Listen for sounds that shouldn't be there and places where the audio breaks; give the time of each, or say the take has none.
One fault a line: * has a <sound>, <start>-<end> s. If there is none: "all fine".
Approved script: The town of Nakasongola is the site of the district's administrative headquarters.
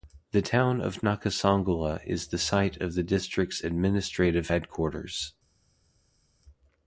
all fine